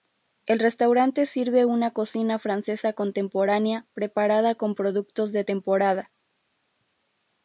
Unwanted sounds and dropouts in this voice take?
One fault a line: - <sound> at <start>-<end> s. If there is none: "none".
none